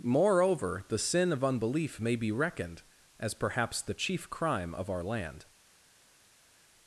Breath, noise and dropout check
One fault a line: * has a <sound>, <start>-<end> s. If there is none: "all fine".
all fine